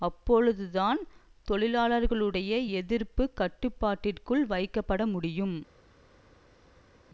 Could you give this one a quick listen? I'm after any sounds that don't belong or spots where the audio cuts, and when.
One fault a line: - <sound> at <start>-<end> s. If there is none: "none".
none